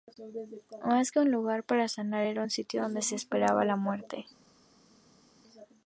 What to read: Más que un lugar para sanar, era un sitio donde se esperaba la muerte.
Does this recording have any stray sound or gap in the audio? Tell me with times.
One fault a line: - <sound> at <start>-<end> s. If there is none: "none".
none